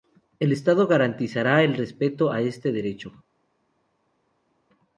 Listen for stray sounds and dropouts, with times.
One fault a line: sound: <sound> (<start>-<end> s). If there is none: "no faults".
no faults